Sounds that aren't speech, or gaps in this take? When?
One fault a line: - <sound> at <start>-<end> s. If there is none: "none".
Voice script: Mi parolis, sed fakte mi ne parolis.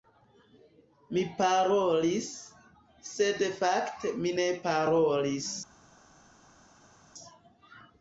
none